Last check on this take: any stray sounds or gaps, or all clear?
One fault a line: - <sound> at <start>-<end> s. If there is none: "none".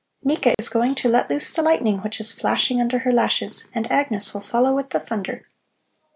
- dropout at 0.5-0.6 s